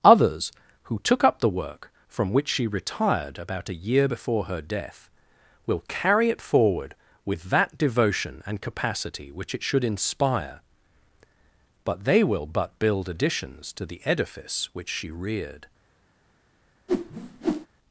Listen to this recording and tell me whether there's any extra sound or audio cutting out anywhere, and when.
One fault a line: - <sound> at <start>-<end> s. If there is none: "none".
- whoosh at 16.9-17.7 s